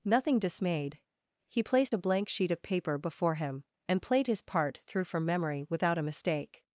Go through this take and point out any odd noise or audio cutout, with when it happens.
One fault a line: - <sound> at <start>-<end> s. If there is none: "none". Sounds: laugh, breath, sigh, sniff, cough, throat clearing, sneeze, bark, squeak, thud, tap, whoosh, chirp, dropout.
none